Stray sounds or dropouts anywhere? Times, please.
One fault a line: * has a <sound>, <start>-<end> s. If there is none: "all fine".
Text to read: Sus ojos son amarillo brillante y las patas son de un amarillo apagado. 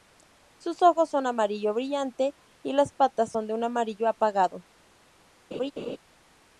* has a laugh, 5.5-6.0 s